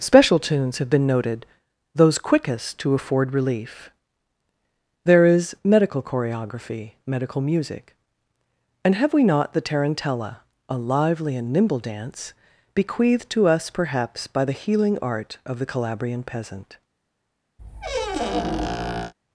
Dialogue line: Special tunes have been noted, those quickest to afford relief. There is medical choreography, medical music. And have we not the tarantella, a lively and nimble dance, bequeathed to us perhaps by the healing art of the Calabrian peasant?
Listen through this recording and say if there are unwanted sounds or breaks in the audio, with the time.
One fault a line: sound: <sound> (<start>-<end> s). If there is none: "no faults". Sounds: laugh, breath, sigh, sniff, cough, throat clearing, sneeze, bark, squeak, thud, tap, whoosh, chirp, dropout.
sound: squeak (17.6-19.1 s)